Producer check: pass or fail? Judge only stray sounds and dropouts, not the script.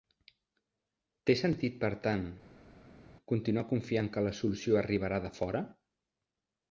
pass